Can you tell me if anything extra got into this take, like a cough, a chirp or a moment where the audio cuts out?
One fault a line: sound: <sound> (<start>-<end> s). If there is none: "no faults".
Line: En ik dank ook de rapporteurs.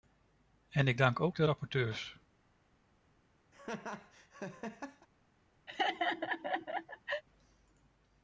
sound: laugh (3.5-5.1 s)
sound: laugh (5.7-7.2 s)